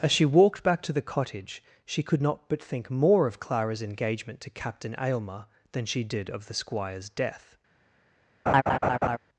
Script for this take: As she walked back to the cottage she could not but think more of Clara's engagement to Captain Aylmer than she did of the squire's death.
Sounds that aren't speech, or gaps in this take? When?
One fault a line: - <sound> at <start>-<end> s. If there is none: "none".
- laugh at 8.5-9.2 s